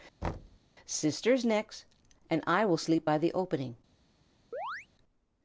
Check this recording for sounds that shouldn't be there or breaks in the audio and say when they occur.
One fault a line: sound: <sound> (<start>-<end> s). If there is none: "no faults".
sound: thud (0.2-0.6 s)
sound: chirp (4.5-4.9 s)